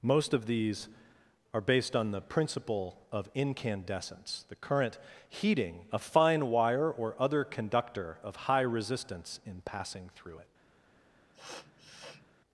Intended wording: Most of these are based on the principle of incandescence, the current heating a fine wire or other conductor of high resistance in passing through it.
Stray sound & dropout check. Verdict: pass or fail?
fail